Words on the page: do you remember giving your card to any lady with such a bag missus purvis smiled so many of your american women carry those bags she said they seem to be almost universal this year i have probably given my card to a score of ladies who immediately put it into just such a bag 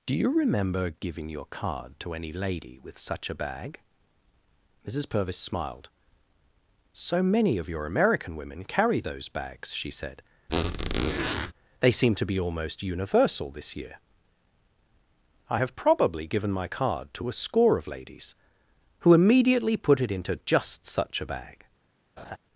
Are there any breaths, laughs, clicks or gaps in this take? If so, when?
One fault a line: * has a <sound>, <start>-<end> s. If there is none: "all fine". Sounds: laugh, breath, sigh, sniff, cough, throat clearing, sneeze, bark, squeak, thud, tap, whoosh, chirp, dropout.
* has a squeak, 10.5-11.5 s
* has a laugh, 22.2-22.4 s